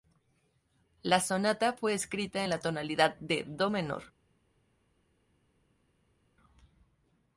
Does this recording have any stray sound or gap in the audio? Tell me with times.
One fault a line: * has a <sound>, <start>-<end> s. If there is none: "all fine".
all fine